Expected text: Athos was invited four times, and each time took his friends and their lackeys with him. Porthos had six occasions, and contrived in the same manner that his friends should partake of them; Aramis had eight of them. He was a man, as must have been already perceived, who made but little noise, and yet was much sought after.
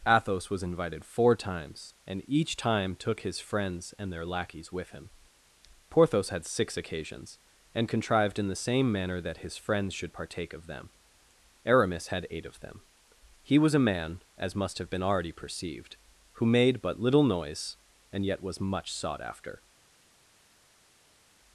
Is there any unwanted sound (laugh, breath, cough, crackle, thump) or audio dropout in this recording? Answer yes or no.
no